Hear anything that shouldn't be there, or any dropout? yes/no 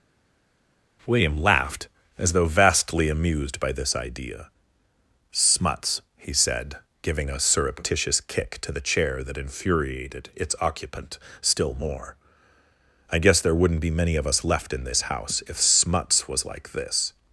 no